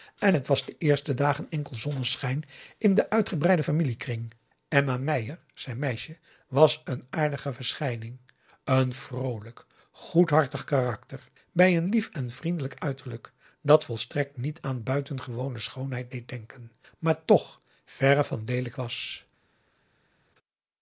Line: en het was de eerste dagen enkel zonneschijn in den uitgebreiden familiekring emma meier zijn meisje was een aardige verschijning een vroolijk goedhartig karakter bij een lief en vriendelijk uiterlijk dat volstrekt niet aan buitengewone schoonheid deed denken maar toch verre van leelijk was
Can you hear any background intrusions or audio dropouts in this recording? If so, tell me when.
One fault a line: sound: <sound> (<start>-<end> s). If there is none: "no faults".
no faults